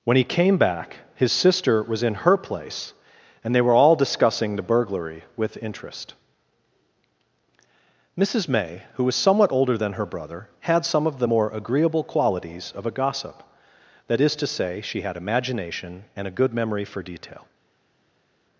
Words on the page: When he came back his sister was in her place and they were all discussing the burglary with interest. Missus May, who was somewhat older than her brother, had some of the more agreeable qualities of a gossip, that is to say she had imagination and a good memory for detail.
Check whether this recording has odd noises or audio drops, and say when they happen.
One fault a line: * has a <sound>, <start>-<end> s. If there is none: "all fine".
all fine